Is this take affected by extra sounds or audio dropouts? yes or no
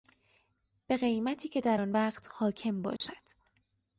yes